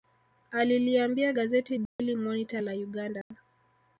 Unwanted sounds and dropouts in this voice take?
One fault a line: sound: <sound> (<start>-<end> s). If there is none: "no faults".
sound: dropout (1.9-2.0 s)
sound: dropout (3.2-3.3 s)